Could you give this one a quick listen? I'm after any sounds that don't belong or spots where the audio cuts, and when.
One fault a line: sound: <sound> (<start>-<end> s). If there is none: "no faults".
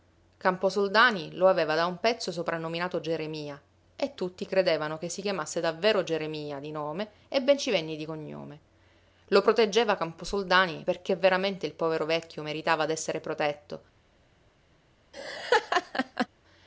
sound: laugh (15.1-16.3 s)